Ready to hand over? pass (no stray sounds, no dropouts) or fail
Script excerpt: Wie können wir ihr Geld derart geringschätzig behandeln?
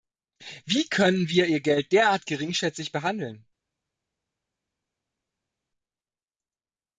pass